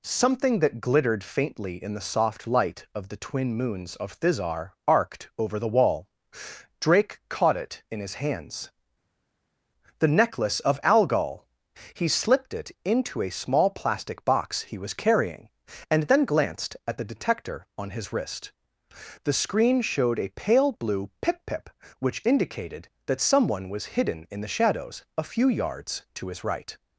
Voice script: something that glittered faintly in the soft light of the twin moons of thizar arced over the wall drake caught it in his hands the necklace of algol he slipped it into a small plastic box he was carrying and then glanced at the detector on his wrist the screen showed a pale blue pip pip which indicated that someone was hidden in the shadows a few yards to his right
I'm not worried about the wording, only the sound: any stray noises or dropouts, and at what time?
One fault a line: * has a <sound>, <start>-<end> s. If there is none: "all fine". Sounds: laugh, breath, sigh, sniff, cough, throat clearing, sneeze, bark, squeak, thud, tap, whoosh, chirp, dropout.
all fine